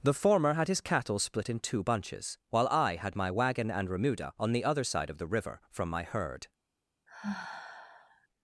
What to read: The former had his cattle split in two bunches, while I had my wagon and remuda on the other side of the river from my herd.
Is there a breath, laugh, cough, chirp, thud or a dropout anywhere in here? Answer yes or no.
yes